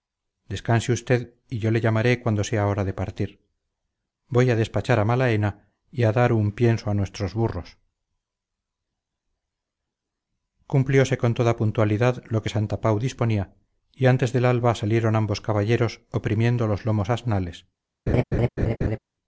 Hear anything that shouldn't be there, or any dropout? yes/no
yes